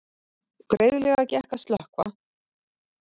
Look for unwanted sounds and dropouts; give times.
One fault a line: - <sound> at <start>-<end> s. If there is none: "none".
none